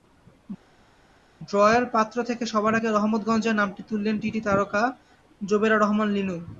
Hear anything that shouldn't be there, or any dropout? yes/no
no